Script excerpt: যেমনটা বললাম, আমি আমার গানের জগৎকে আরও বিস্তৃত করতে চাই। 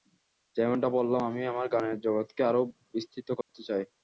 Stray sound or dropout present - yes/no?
yes